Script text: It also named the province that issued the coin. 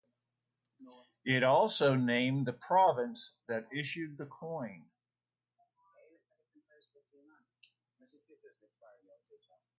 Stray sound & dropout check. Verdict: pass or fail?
pass